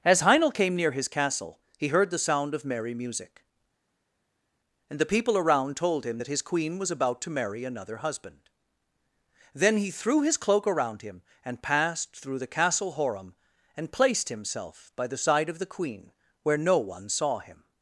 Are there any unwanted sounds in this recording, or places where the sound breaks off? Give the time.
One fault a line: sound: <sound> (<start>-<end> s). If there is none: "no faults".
no faults